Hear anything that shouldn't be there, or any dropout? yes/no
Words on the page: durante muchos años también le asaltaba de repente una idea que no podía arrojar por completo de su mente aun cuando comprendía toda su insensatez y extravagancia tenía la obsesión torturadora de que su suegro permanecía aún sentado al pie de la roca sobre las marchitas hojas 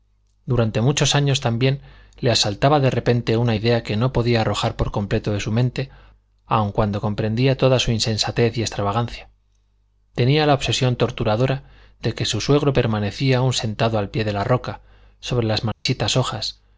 yes